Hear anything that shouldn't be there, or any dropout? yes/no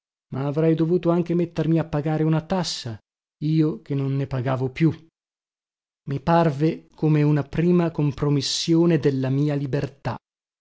no